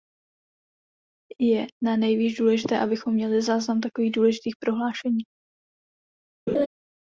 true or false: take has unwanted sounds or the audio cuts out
true